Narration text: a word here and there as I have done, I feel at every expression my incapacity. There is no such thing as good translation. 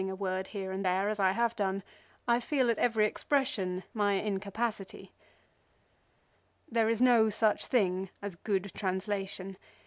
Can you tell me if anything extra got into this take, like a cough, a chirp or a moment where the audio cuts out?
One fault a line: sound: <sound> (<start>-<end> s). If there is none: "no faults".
no faults